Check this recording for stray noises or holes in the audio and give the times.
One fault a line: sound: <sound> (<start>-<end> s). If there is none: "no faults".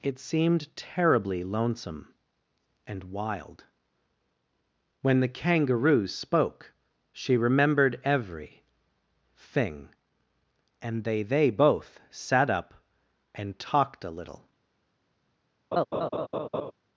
sound: laugh (15.7-16.7 s)